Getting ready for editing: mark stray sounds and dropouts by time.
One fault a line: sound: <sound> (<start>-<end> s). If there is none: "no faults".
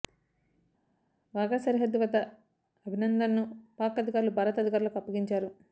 no faults